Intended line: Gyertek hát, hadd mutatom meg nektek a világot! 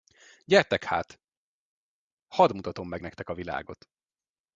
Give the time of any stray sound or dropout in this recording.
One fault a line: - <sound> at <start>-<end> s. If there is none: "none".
none